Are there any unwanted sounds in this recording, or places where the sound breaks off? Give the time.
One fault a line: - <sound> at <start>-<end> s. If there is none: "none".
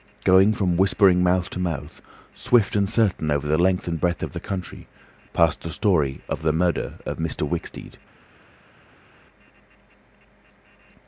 none